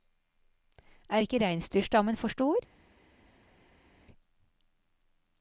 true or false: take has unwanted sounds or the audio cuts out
false